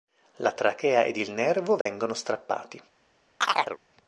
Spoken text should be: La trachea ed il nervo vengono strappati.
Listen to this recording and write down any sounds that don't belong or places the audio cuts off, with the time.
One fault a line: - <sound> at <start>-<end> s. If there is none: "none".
- dropout at 1.8-1.9 s
- chirp at 3.4-3.8 s